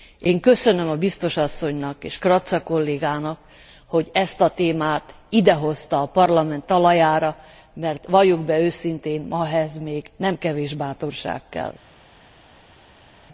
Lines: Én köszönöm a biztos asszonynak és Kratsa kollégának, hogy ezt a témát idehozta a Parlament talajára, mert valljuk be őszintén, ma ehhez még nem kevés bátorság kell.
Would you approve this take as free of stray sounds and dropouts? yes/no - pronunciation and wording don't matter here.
yes